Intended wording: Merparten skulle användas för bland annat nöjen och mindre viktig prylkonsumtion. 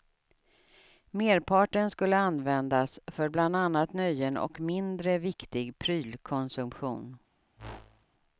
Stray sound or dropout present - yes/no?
yes